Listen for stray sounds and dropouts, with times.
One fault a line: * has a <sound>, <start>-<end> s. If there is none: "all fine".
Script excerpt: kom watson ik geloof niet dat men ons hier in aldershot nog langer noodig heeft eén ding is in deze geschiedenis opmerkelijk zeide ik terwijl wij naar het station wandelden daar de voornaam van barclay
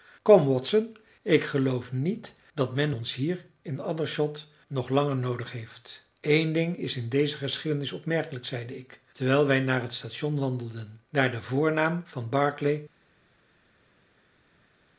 all fine